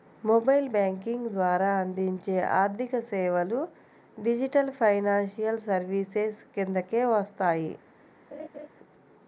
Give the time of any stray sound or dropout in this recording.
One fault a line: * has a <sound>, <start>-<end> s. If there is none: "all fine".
* has a laugh, 8.3-8.7 s